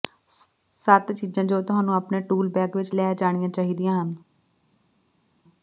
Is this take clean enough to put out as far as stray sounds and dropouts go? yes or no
yes